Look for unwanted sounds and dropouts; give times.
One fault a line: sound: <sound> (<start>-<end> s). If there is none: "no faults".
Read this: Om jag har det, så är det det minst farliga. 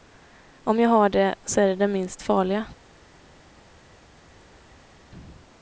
no faults